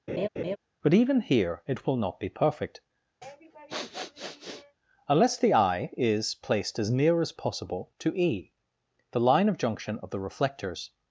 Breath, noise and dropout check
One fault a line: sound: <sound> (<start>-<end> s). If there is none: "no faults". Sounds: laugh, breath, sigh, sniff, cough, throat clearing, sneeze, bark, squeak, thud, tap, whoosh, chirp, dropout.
sound: laugh (0.1-0.6 s)
sound: sniff (3.2-4.8 s)